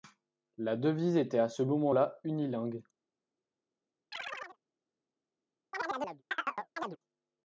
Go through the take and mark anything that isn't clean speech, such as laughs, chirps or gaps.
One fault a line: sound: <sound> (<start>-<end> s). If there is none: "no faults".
sound: chirp (4.1-4.6 s)
sound: chirp (5.7-7.0 s)